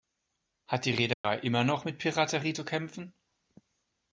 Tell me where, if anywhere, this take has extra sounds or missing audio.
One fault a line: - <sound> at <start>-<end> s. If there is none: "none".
- dropout at 1.1-1.2 s